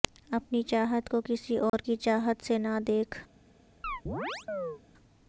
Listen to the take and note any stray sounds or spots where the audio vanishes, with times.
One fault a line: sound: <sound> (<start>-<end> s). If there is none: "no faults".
sound: dropout (1.7-1.7 s)
sound: chirp (3.8-4.8 s)